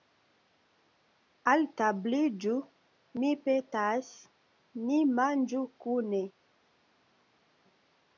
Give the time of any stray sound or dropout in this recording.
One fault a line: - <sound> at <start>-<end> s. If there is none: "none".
none